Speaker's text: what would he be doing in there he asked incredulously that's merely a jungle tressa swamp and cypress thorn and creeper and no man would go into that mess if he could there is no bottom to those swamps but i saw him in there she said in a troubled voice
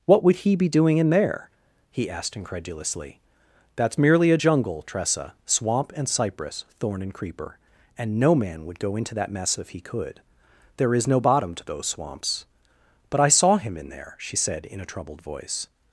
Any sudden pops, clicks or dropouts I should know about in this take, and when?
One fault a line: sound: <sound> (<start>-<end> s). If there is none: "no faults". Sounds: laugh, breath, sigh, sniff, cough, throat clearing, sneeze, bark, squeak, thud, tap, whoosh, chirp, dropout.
no faults